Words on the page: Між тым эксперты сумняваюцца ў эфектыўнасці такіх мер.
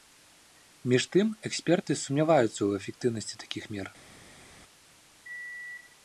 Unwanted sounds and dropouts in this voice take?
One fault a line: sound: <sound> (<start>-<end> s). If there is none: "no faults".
no faults